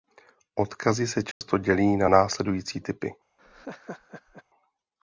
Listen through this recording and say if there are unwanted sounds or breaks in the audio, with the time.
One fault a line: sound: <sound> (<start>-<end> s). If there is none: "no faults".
sound: dropout (1.3-1.4 s)
sound: laugh (3.4-4.4 s)